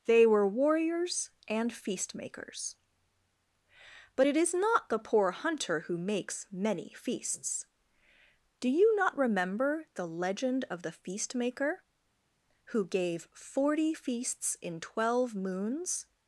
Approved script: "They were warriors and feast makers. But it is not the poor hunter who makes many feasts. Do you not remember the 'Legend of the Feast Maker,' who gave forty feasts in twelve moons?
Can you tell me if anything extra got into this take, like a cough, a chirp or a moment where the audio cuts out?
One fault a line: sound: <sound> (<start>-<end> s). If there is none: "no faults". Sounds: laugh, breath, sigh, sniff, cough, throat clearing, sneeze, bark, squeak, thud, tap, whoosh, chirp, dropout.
no faults